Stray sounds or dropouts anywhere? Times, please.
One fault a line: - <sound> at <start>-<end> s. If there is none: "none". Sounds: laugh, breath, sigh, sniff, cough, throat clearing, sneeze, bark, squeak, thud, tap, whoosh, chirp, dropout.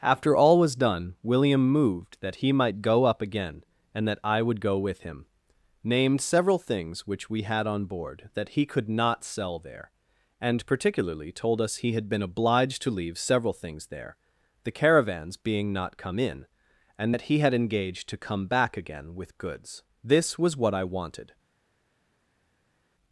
none